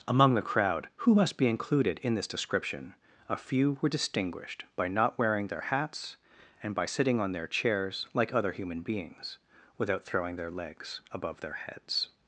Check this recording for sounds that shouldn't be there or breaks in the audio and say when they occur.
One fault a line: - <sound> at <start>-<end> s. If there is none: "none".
none